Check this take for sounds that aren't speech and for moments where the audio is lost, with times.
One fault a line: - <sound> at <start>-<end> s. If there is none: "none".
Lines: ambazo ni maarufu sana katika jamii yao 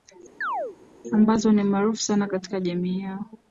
- chirp at 0.4-0.8 s